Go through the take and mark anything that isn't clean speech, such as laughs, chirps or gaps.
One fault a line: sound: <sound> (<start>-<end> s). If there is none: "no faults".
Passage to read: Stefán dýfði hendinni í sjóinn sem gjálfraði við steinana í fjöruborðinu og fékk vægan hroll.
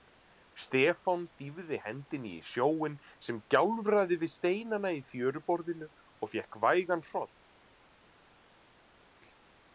no faults